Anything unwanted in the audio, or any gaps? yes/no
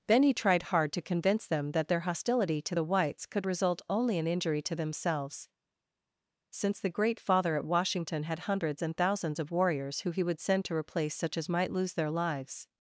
no